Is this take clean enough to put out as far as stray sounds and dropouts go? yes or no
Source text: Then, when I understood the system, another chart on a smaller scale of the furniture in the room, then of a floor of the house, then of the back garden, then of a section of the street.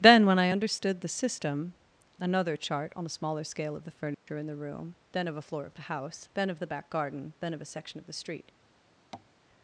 no